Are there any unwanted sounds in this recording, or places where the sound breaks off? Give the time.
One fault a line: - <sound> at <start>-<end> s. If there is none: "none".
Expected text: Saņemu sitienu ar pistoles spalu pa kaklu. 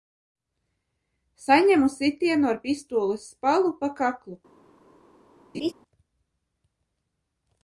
- laugh at 5.5-5.7 s